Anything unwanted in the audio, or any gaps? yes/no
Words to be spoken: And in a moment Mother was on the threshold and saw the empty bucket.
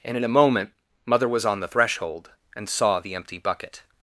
no